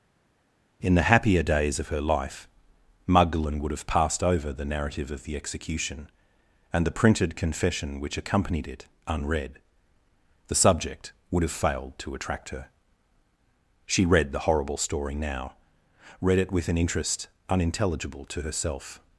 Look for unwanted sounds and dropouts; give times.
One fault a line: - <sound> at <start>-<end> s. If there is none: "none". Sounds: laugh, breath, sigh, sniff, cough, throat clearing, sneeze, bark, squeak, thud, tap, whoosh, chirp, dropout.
none